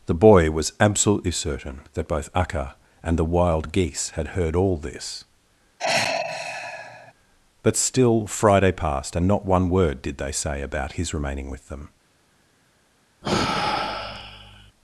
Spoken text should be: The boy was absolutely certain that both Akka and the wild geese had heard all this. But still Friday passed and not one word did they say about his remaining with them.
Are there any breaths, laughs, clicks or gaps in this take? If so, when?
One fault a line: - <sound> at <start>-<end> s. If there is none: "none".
- sigh at 5.8-7.1 s
- sigh at 13.2-14.7 s